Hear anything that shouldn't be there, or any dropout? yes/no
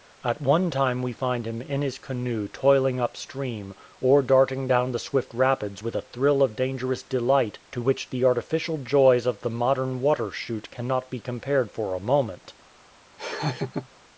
yes